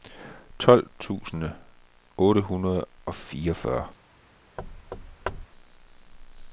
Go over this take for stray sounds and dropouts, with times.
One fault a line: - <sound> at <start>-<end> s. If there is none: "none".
- thud at 4.6-5.5 s